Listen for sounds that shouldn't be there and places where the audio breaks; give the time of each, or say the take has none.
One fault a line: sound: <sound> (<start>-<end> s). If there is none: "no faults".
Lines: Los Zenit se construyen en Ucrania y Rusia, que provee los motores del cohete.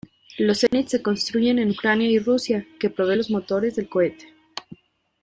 sound: dropout (0.7-0.7 s)